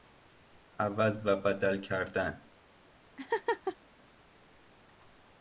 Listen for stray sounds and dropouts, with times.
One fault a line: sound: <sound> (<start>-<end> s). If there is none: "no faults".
sound: laugh (3.2-3.8 s)